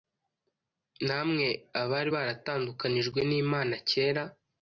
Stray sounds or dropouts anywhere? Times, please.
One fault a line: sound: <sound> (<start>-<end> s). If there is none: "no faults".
no faults